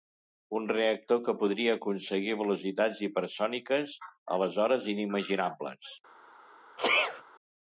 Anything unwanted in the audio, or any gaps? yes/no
yes